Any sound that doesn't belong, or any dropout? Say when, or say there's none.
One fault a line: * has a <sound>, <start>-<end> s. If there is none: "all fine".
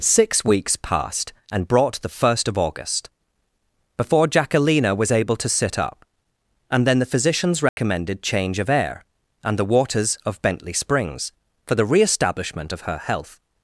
* has a dropout, 7.7-7.8 s